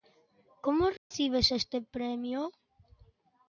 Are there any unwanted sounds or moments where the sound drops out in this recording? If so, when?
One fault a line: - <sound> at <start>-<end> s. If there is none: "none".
- dropout at 1.0-1.1 s